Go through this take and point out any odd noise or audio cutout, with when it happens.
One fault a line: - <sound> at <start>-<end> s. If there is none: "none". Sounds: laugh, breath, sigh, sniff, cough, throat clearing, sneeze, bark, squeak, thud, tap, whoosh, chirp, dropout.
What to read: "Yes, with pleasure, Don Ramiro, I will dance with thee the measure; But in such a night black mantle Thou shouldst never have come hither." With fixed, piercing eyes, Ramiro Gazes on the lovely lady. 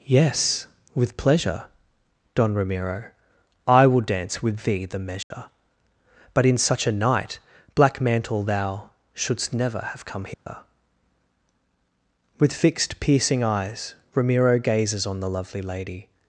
- dropout at 5.2-5.3 s
- dropout at 10.3-10.5 s